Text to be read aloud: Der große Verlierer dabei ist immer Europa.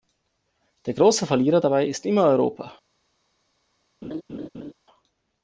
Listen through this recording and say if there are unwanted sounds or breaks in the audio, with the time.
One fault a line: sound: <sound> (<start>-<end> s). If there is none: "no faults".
sound: laugh (4.0-4.7 s)